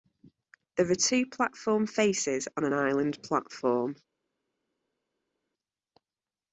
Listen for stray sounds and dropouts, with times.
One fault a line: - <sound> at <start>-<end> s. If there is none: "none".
none